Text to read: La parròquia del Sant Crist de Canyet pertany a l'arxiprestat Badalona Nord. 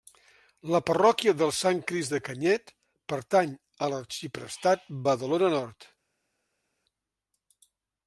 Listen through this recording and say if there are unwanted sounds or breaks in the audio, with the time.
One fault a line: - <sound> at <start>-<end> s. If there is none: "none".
none